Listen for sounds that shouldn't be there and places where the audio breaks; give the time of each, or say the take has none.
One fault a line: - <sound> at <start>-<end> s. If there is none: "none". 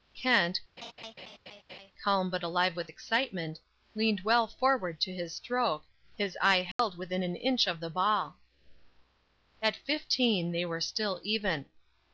- laugh at 0.8-1.9 s
- dropout at 6.7-6.8 s